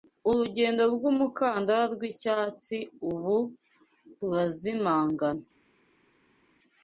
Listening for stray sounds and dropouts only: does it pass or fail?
pass